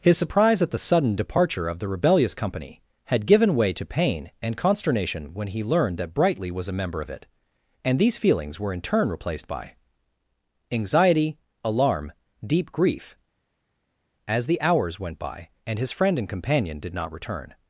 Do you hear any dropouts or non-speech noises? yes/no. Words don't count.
no